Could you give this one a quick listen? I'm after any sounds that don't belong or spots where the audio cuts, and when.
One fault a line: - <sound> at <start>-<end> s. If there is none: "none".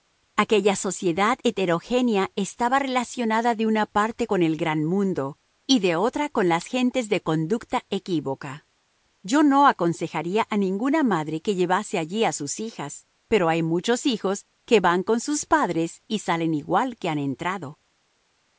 none